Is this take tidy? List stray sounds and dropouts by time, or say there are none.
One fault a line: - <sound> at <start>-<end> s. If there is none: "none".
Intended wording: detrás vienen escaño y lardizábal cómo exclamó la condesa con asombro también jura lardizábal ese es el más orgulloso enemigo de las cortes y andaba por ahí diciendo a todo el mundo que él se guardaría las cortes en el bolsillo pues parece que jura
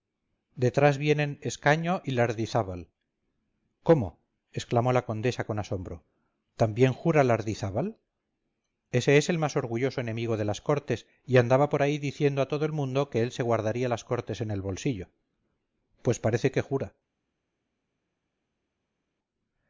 none